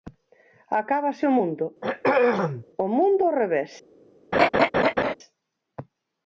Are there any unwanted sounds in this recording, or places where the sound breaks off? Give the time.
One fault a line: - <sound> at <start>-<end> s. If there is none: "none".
- throat clearing at 1.8-2.6 s
- laugh at 4.3-5.1 s